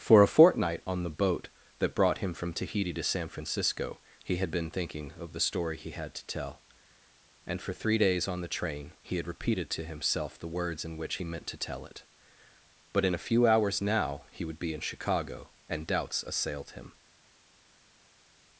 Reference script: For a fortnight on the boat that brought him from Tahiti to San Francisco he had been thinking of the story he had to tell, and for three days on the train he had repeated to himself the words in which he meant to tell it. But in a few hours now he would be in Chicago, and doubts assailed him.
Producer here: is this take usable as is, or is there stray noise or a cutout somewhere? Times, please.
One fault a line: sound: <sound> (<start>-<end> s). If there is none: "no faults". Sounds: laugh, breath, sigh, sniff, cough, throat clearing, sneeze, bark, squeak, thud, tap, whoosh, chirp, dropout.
no faults